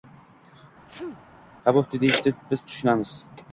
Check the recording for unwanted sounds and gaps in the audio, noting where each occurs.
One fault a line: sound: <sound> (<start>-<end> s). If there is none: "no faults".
sound: sneeze (0.9-1.2 s)